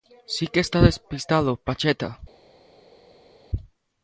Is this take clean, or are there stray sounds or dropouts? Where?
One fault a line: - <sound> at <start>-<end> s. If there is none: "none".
none